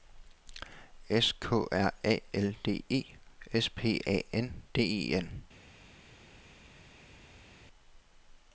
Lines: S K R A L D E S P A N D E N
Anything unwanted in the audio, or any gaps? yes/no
no